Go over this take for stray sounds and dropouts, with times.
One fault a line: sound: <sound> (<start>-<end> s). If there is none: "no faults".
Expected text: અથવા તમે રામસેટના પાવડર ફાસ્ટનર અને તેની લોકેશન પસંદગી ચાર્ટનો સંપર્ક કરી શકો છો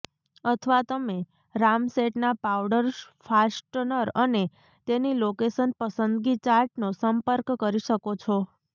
no faults